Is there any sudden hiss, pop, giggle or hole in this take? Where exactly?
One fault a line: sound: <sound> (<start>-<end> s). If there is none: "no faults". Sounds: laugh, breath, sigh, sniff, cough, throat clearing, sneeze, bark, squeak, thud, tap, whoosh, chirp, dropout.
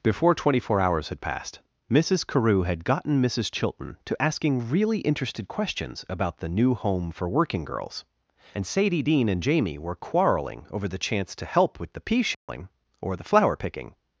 sound: dropout (12.3-12.5 s)